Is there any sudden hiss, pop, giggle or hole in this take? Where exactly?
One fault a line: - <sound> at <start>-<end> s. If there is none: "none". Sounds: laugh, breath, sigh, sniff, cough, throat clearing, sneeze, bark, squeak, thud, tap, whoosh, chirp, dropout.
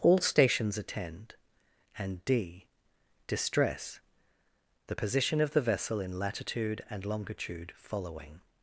none